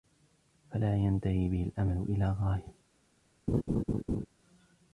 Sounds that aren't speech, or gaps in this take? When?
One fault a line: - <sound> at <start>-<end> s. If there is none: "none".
- laugh at 3.5-4.3 s